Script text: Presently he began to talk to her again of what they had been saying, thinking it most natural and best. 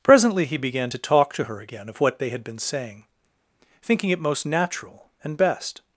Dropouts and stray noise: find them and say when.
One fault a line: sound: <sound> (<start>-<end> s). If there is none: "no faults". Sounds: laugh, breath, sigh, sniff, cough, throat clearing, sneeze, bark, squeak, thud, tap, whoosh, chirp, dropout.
no faults